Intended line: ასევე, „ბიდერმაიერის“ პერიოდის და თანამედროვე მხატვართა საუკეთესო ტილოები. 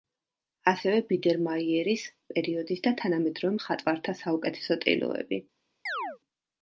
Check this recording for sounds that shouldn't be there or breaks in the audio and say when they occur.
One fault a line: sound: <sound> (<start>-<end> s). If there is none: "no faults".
sound: chirp (5.9-6.2 s)